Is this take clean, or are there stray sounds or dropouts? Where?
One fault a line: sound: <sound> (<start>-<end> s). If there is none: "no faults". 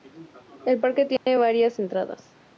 sound: dropout (1.2-1.3 s)